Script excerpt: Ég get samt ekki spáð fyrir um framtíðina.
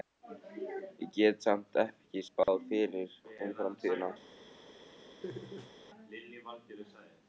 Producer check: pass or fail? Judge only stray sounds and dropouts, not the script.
fail